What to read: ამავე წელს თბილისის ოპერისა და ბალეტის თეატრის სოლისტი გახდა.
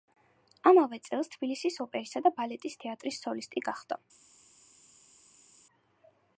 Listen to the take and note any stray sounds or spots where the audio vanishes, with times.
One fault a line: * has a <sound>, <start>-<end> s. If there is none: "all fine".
all fine